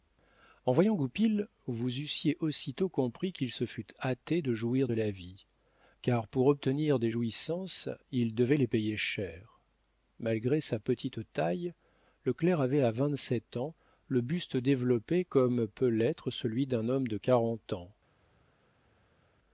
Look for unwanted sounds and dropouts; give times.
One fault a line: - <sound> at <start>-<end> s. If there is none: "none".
none